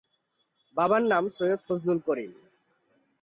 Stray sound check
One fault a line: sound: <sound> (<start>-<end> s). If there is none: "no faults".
no faults